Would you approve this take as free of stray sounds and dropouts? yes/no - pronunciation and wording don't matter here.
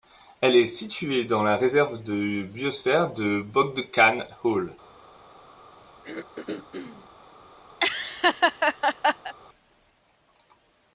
no